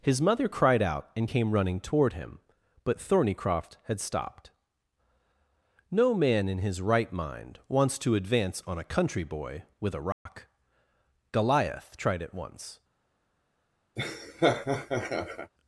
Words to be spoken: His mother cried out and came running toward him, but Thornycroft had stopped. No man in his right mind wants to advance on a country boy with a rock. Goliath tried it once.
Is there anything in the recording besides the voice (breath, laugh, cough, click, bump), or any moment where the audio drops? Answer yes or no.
yes